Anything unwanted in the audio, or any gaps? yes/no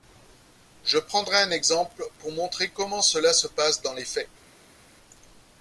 no